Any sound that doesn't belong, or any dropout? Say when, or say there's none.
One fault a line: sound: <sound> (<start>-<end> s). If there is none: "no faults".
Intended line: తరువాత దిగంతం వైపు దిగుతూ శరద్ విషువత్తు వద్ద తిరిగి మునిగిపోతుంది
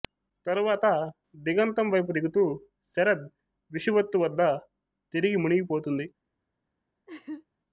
sound: laugh (7.1-7.5 s)